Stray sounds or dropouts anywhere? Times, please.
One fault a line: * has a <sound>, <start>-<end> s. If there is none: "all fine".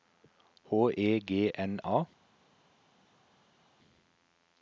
all fine